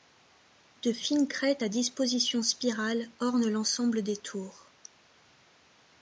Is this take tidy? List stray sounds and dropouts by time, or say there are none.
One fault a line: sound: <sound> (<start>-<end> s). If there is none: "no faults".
no faults